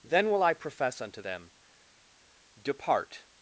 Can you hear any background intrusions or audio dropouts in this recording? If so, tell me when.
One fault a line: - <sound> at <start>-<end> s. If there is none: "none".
none